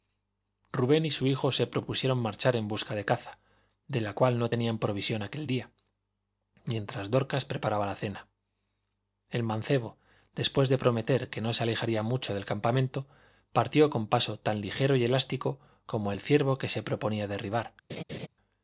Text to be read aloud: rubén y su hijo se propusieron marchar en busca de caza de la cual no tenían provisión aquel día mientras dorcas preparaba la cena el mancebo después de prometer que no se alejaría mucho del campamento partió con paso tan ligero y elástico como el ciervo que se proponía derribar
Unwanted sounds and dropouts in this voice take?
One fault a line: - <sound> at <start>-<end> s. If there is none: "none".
- laugh at 17.9-18.3 s